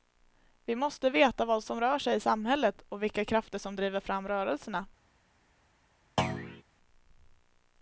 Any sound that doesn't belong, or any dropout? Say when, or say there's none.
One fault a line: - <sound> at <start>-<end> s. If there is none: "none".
- thud at 6.2-6.6 s